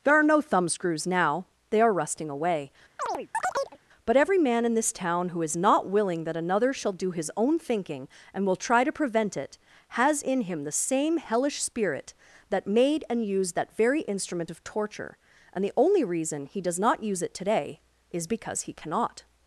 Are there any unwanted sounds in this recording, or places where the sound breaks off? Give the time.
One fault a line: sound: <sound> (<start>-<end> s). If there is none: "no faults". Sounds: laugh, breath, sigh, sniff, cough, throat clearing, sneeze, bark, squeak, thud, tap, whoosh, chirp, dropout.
sound: chirp (3.0-3.8 s)